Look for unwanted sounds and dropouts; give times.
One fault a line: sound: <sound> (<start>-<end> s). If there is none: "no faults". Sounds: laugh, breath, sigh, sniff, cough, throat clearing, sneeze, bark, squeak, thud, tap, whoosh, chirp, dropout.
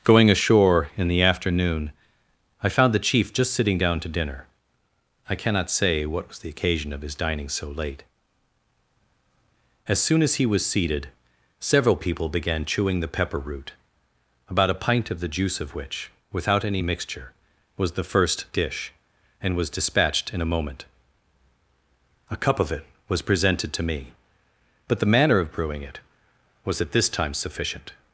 no faults